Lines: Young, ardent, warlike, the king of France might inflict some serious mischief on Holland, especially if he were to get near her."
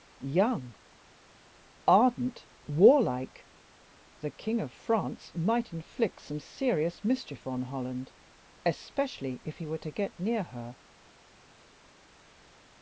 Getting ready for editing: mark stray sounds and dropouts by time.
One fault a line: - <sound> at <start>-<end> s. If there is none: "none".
none